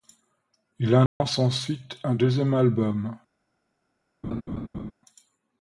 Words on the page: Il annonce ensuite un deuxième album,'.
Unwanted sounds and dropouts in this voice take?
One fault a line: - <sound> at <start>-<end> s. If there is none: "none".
- dropout at 1.1-1.2 s
- laugh at 4.2-4.9 s